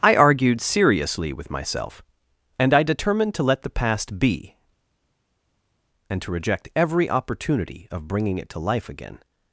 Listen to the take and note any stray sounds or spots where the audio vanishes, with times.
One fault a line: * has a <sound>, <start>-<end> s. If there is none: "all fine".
all fine